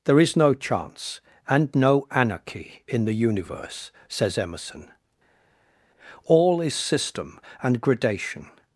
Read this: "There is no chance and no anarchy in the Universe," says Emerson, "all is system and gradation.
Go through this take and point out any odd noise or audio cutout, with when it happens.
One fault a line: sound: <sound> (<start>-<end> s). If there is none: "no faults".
no faults